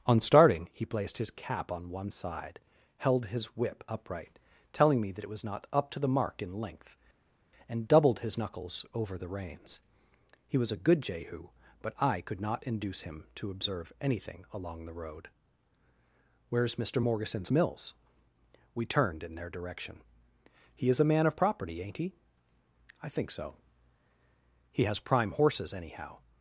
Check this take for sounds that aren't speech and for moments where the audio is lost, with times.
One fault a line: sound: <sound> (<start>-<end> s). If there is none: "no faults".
no faults